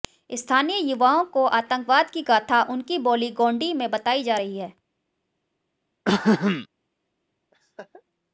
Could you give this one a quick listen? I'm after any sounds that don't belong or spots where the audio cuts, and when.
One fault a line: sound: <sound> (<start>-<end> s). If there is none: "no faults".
sound: throat clearing (6.1-6.7 s)
sound: laugh (7.5-8.0 s)